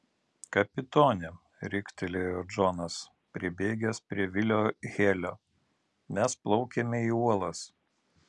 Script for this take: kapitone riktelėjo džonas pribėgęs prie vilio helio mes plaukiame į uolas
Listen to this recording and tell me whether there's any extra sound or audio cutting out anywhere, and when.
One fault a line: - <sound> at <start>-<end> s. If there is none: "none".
none